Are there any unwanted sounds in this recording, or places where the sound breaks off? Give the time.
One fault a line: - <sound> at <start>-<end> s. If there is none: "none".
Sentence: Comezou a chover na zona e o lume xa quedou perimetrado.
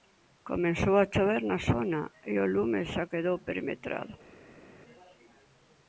none